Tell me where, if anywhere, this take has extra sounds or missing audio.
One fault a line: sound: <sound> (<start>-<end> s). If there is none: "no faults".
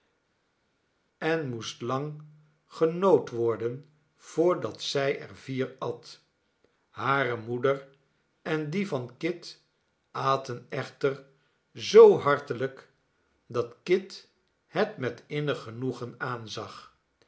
no faults